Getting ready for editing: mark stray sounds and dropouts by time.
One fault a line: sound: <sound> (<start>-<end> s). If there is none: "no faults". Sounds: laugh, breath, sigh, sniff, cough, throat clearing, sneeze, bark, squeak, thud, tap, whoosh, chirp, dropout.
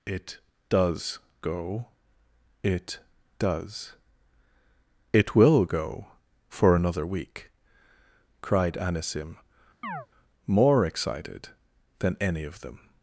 sound: chirp (9.8-10.1 s)